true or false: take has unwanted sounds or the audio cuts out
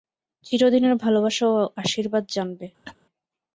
true